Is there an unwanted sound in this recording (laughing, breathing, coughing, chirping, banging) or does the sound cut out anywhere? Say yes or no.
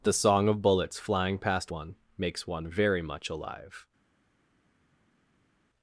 no